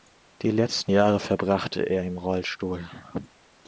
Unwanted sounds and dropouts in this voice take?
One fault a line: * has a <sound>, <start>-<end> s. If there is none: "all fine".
all fine